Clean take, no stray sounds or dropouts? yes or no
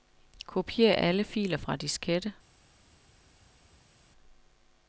yes